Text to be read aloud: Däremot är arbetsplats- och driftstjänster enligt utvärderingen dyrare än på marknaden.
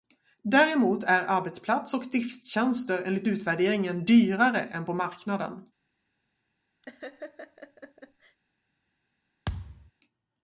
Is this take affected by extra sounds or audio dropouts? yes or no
yes